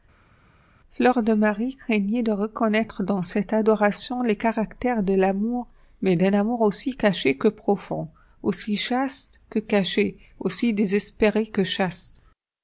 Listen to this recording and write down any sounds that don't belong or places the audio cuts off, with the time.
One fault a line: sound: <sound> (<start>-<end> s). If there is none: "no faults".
no faults